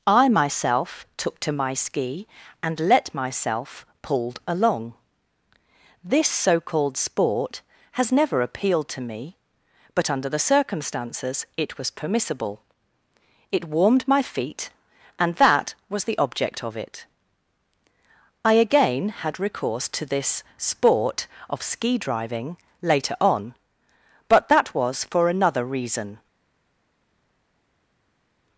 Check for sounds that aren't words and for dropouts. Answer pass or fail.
pass